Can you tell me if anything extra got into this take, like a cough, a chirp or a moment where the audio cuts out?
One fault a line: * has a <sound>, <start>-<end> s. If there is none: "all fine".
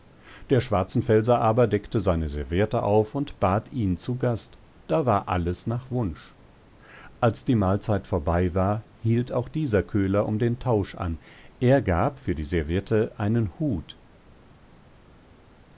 all fine